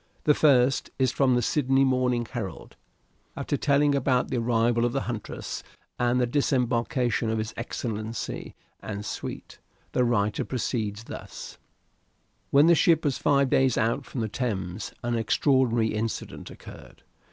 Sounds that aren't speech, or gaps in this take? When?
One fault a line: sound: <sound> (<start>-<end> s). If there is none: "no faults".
no faults